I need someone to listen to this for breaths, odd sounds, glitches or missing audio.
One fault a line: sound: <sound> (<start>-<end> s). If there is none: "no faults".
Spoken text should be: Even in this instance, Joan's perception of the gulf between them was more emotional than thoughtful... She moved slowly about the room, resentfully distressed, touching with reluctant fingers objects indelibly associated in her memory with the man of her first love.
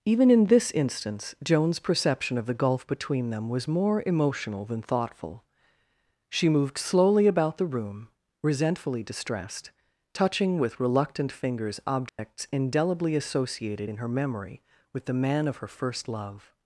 sound: dropout (12.1-12.2 s)